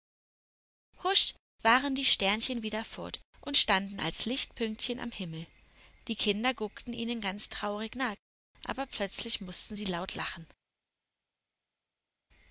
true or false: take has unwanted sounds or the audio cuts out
false